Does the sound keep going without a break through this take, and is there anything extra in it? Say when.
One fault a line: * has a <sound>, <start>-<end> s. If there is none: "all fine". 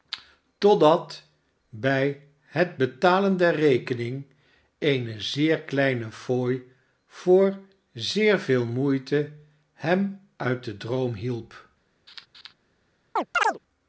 * has a laugh, 12.1-12.5 s
* has a chirp, 13.2-13.6 s